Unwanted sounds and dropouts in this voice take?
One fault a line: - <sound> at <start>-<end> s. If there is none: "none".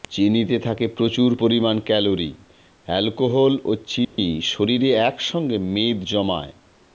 - dropout at 4.0-4.2 s